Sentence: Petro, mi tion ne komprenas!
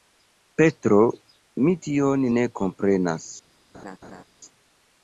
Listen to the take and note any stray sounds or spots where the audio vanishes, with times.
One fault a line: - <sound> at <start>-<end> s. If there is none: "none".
- laugh at 3.7-4.2 s